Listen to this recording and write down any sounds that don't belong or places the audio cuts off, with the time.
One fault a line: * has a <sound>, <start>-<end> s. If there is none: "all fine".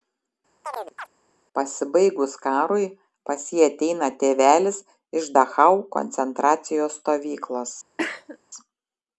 * has a chirp, 0.6-1.1 s
* has a cough, 8.0-8.4 s